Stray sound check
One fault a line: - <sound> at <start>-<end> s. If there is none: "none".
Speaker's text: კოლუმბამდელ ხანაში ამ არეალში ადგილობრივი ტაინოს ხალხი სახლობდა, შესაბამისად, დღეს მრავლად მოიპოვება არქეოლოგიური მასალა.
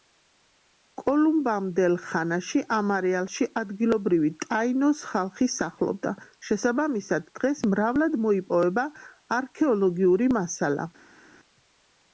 none